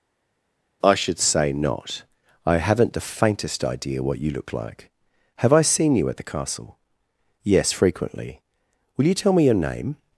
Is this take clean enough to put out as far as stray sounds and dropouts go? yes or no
yes